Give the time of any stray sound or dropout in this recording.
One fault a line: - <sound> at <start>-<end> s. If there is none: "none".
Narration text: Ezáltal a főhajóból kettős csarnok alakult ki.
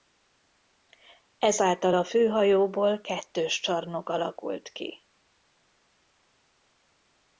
none